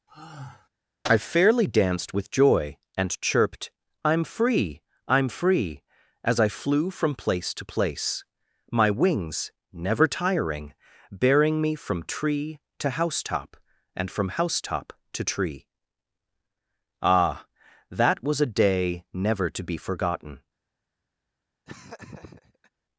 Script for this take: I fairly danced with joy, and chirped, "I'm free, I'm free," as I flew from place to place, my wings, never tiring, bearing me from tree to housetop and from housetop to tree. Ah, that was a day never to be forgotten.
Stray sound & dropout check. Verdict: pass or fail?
fail